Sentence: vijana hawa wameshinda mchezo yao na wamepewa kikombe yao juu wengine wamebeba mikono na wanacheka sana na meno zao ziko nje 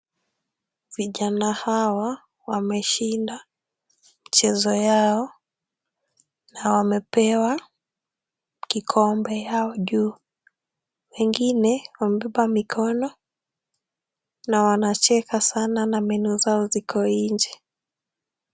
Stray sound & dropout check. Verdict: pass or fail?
pass